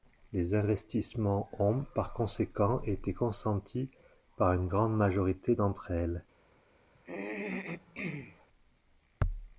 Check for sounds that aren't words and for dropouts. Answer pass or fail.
fail